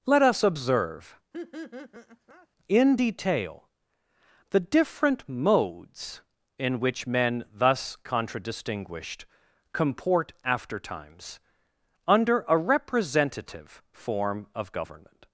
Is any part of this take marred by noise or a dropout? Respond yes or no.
yes